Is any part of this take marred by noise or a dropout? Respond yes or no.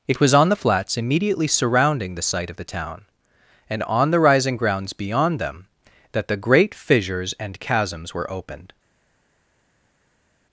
no